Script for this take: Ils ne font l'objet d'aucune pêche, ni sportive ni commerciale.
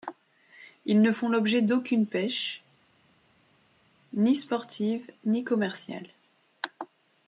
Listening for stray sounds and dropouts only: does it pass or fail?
pass